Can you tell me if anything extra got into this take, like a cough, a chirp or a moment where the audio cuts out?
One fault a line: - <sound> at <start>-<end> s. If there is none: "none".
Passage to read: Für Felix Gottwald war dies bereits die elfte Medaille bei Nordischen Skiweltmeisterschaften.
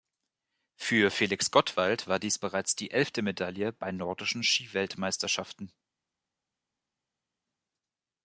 none